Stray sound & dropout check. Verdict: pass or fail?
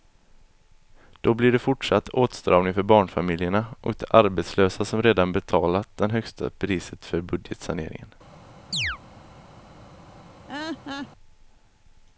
fail